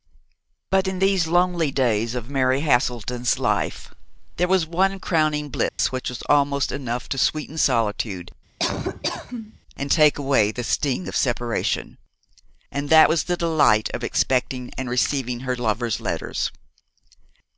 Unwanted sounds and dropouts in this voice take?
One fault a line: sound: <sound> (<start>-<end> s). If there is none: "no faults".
sound: dropout (5.7-5.8 s)
sound: laugh (8.6-9.6 s)